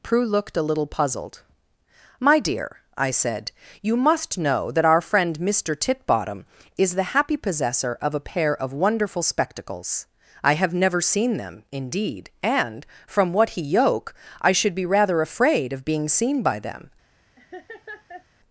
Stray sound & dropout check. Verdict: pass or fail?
fail